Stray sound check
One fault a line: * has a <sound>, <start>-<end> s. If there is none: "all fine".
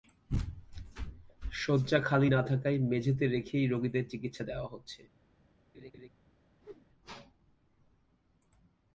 * has a laugh, 5.7-6.1 s
* has a whoosh, 6.6-6.9 s